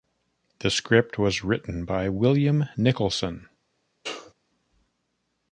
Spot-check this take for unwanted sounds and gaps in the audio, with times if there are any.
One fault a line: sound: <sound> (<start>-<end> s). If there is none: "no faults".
sound: sneeze (4.0-4.3 s)